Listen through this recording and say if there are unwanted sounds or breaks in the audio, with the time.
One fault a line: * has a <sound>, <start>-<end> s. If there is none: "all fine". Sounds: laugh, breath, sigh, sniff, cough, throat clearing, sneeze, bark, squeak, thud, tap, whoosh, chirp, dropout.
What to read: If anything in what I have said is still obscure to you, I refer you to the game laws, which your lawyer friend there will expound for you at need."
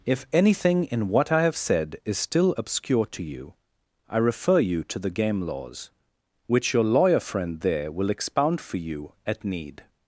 all fine